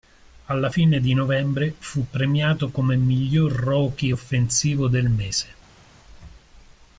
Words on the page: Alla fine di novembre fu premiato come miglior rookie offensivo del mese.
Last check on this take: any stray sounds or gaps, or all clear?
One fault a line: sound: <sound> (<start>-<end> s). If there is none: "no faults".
no faults